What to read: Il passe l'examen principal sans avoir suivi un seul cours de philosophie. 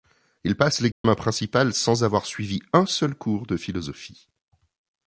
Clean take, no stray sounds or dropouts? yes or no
no